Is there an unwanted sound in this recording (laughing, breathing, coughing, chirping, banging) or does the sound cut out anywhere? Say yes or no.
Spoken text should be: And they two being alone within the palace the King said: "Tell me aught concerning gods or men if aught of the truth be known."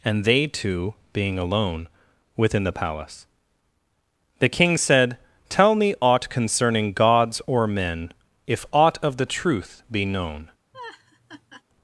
yes